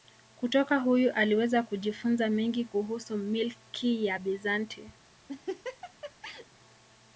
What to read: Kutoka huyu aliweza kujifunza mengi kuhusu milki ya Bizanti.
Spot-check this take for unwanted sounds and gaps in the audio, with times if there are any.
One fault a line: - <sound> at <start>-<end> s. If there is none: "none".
- laugh at 5.3-6.5 s